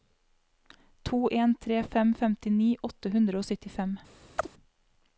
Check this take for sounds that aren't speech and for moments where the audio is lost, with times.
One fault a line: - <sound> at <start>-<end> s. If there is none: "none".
- chirp at 4.4-4.5 s